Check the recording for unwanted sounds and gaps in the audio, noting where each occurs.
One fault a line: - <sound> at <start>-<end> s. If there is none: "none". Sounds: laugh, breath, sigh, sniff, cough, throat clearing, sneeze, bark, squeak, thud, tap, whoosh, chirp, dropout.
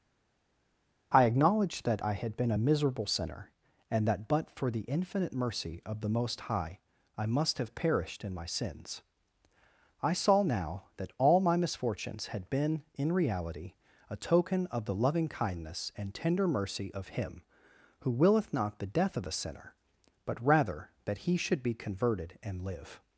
none